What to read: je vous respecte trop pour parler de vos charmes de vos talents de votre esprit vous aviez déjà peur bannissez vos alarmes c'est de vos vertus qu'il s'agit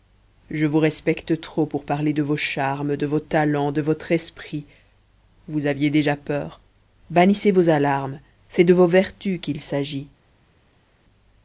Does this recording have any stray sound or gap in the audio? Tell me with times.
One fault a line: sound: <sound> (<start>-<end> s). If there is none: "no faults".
no faults